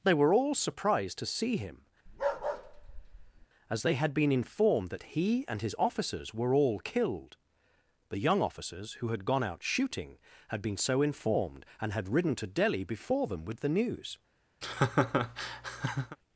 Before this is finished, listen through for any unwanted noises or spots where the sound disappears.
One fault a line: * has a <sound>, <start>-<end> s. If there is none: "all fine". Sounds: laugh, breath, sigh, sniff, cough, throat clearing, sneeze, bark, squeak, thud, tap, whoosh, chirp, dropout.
* has a bark, 2.1-3.5 s
* has a laugh, 14.6-16.2 s